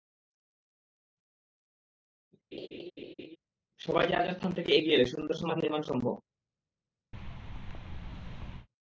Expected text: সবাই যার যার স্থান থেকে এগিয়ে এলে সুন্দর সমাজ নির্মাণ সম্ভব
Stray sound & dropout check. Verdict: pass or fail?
fail